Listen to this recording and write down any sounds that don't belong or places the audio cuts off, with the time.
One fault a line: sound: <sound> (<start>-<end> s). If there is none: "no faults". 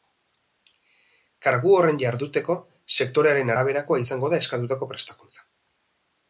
no faults